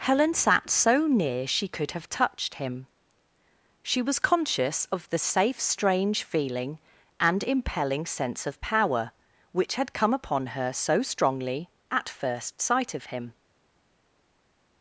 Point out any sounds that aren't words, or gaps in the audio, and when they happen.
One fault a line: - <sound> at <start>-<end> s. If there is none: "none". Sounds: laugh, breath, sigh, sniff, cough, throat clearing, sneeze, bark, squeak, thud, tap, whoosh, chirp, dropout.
none